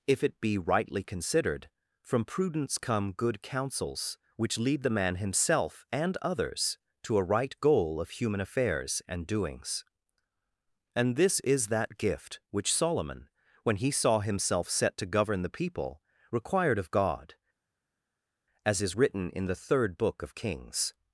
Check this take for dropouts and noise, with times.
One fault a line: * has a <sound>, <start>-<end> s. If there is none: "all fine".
all fine